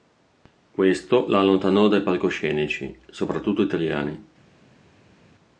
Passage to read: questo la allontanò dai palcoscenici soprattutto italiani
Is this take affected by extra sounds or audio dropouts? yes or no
no